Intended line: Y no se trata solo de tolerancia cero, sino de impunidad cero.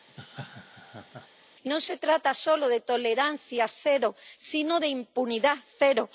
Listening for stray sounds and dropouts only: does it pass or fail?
fail